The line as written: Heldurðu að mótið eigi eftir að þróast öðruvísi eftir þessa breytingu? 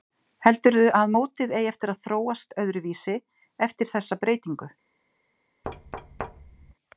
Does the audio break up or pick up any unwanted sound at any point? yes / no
yes